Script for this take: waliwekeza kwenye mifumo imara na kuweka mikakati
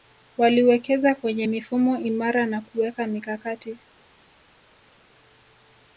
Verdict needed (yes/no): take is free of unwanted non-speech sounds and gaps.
yes